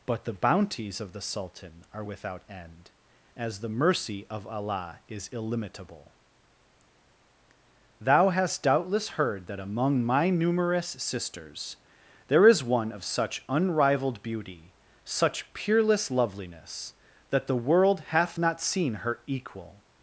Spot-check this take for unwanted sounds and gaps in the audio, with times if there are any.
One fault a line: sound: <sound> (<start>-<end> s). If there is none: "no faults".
no faults